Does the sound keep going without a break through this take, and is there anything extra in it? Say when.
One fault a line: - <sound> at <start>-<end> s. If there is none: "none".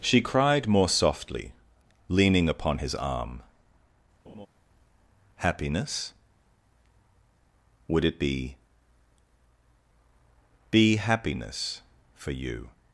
- laugh at 4.2-4.5 s